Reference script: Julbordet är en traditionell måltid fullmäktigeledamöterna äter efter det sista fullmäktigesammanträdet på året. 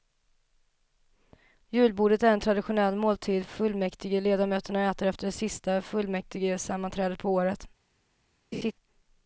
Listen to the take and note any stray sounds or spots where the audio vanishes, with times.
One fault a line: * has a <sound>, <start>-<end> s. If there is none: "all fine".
* has a laugh, 8.5-8.7 s